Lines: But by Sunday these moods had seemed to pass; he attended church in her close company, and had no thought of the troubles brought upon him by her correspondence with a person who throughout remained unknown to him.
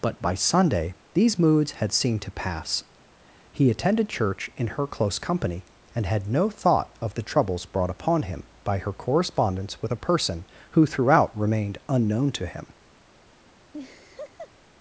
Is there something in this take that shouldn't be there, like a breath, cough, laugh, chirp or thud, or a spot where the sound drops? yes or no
yes